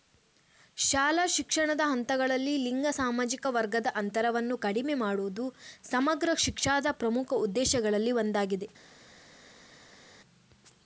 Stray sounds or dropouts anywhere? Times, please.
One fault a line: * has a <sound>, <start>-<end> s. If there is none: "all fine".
all fine